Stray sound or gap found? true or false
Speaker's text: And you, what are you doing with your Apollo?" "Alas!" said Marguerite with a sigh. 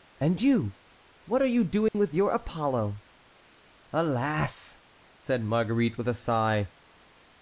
true